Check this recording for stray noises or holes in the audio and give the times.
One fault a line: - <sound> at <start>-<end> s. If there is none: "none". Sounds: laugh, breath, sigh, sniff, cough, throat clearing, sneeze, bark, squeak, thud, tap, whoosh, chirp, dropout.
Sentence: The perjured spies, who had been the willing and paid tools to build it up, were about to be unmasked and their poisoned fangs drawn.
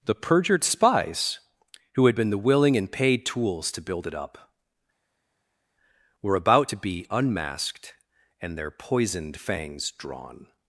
none